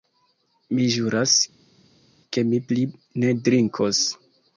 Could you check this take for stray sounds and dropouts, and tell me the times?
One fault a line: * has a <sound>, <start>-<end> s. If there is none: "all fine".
all fine